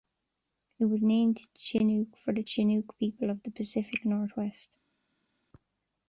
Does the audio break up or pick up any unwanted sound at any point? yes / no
no